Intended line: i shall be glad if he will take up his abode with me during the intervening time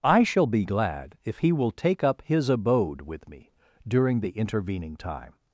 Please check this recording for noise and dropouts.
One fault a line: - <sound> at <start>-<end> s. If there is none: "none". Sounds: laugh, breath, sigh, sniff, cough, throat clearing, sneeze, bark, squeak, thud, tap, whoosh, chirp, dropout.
none